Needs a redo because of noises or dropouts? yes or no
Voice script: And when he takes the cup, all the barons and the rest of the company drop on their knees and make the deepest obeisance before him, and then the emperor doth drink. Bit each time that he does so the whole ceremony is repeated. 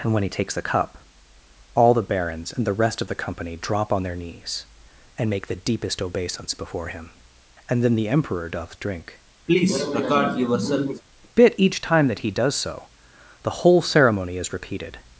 yes